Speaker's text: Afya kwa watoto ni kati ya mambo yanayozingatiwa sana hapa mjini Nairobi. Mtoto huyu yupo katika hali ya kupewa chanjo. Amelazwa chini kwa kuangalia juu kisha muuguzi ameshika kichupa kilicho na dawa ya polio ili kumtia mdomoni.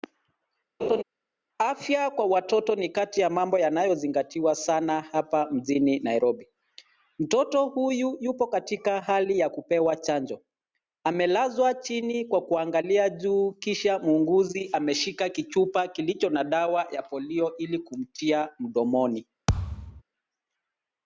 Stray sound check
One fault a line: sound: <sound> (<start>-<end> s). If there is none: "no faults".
sound: laugh (0.8-1.0 s)
sound: thud (19.5-20.0 s)